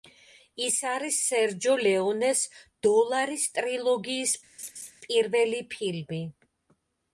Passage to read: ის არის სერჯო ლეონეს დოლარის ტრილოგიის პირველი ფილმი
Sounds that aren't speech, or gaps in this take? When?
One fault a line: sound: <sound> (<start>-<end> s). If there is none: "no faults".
sound: laugh (4.6-4.9 s)